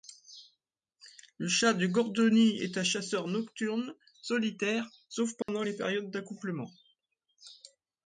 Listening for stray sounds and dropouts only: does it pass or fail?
fail